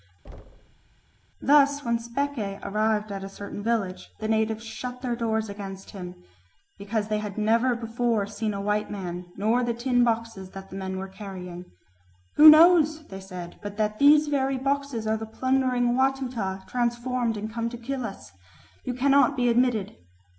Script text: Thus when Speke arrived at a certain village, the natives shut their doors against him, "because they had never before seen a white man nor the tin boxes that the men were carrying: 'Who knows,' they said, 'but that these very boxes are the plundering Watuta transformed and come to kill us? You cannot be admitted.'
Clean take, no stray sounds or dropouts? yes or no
no